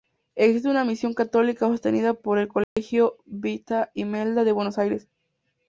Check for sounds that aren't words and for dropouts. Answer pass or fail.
fail